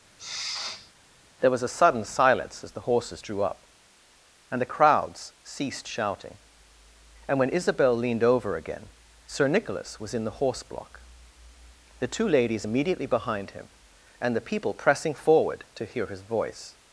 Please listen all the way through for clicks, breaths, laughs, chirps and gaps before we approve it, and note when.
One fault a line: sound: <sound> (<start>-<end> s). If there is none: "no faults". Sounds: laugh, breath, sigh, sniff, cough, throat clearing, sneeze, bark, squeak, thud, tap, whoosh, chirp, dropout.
sound: sniff (0.2-0.9 s)